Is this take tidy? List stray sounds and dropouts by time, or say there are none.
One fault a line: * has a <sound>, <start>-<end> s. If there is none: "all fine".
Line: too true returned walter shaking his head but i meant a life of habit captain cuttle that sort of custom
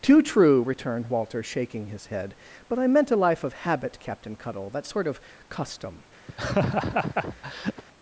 * has a laugh, 6.3-7.8 s